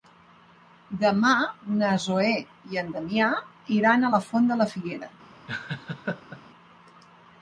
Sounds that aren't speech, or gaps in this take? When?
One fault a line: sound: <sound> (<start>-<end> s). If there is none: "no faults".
sound: laugh (5.5-6.4 s)